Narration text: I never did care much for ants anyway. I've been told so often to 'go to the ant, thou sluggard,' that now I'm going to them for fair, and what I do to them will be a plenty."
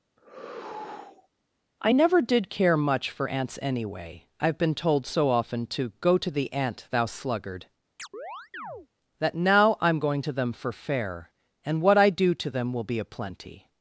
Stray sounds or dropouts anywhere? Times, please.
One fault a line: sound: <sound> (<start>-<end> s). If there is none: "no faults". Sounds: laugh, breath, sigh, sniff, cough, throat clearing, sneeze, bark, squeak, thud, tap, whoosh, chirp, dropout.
sound: sigh (0.2-1.3 s)
sound: chirp (8.0-8.9 s)